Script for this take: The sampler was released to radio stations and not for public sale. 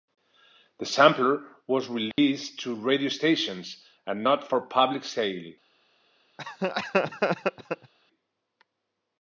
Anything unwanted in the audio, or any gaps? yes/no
yes